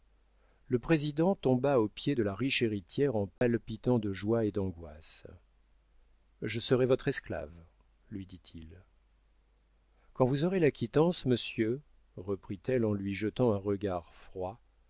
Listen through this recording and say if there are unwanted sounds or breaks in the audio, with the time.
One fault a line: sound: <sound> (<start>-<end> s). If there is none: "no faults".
sound: dropout (3.4-3.4 s)